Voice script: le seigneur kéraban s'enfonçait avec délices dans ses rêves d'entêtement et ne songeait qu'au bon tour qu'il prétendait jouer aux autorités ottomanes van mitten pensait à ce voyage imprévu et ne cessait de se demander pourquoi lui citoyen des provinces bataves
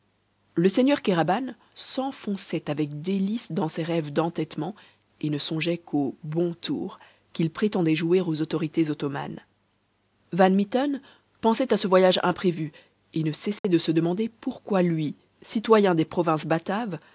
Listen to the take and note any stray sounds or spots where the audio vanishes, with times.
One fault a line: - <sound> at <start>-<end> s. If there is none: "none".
- dropout at 13.6-13.6 s